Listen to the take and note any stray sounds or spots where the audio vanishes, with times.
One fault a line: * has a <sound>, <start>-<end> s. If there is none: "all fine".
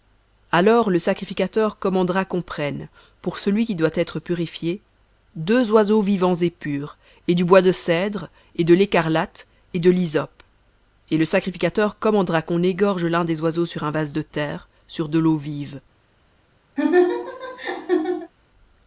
* has a laugh, 16.8-18.3 s